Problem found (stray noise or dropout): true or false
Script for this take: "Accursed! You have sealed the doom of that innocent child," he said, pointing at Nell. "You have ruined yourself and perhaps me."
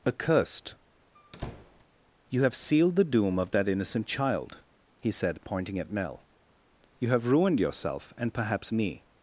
true